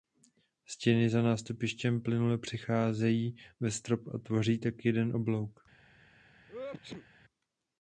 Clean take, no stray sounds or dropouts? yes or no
no